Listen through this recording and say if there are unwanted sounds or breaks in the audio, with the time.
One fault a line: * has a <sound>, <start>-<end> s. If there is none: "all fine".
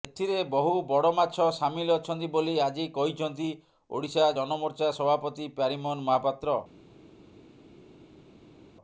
all fine